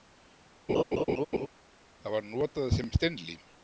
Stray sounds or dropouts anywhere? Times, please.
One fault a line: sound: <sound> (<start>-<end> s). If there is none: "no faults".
sound: laugh (0.7-1.5 s)